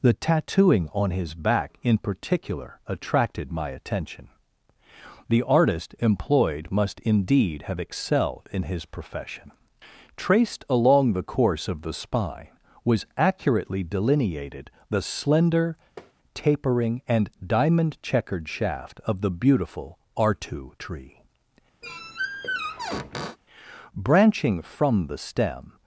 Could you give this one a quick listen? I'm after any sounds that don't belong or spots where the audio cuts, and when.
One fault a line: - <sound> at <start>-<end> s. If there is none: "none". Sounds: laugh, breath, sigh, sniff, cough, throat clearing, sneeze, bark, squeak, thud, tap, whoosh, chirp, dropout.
- tap at 16.0-16.1 s
- squeak at 21.8-23.4 s